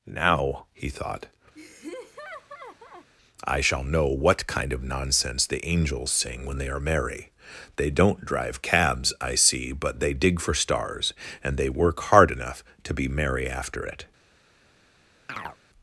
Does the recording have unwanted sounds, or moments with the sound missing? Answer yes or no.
yes